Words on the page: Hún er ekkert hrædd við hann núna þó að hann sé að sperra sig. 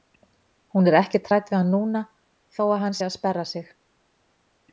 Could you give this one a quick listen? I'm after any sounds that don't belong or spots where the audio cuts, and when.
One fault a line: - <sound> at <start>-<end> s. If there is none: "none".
none